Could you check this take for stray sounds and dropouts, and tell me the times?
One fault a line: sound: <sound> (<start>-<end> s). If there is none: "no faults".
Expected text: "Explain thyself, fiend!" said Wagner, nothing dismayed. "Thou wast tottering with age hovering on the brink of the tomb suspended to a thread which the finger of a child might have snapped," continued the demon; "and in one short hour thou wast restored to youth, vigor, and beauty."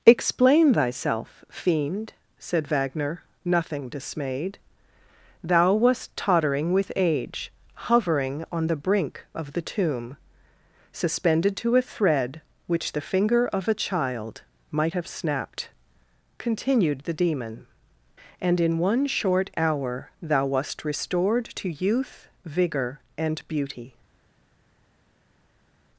no faults